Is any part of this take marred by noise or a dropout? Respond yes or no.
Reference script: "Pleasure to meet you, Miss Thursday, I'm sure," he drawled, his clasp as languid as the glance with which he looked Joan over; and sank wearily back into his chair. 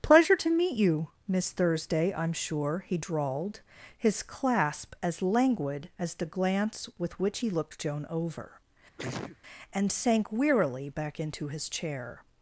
yes